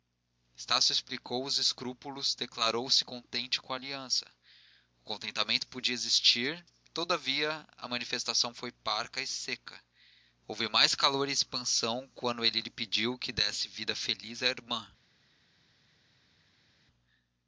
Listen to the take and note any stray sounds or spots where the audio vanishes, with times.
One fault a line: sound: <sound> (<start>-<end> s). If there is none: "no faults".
no faults